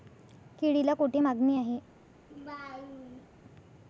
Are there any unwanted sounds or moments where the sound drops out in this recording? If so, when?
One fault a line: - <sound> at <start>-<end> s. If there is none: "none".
- laugh at 2.3-3.3 s